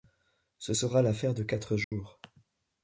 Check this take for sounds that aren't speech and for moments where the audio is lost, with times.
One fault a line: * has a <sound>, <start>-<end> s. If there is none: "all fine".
* has a dropout, 1.8-1.9 s